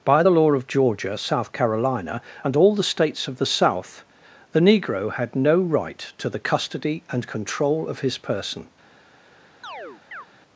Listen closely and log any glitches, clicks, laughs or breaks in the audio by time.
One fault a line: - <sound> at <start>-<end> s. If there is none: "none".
- chirp at 9.6-10.3 s